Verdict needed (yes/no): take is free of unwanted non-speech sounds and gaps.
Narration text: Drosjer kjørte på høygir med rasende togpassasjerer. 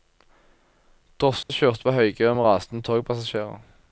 no